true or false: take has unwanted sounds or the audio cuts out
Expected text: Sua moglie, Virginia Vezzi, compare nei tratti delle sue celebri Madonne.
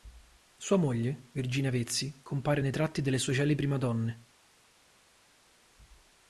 false